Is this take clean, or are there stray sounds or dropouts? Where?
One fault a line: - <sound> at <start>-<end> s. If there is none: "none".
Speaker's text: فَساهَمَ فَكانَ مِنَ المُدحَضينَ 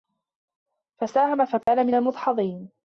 - dropout at 1.6-1.7 s